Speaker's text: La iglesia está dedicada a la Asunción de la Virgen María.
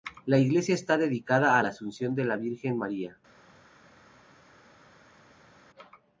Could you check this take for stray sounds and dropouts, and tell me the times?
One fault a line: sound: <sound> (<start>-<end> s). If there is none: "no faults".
no faults